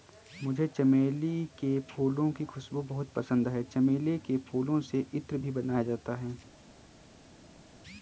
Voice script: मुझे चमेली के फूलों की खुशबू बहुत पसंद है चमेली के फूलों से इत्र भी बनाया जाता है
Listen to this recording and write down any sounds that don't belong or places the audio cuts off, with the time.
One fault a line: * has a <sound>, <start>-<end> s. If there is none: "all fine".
all fine